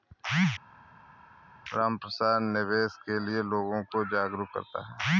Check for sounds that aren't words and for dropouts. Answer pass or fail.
pass